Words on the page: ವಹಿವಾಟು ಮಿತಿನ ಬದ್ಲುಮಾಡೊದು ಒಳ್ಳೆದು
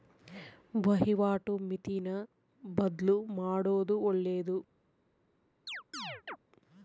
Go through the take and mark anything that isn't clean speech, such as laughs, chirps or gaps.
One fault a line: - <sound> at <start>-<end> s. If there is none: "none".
- chirp at 5.7-6.4 s